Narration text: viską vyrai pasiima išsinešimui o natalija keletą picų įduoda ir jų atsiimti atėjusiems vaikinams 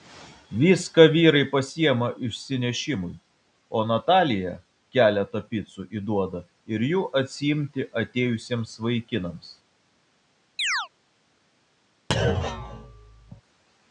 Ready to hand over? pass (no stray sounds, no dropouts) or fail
fail